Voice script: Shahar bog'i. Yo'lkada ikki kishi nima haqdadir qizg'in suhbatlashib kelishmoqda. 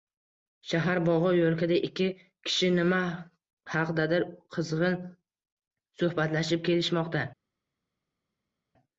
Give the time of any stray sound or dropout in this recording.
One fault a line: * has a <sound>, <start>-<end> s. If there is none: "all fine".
all fine